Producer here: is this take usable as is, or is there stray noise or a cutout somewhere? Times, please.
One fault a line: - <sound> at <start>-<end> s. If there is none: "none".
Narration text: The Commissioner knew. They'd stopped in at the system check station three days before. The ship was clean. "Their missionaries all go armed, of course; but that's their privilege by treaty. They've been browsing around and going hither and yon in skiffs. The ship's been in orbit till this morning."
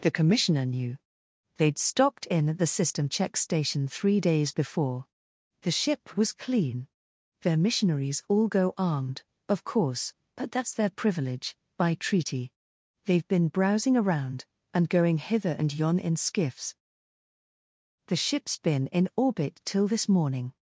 none